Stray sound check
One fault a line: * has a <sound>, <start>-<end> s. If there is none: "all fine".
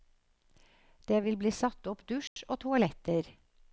* has a dropout, 2.3-2.4 s